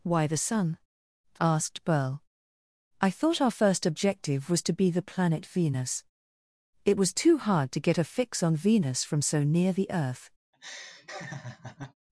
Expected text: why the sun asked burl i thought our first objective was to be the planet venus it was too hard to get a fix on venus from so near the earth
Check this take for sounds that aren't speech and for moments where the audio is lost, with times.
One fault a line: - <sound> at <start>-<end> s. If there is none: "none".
- laugh at 10.5-11.9 s